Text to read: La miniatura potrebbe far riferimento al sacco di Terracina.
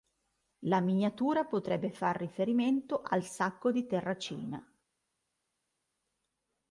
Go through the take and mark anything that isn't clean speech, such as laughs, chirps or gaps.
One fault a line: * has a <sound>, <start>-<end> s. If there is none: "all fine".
all fine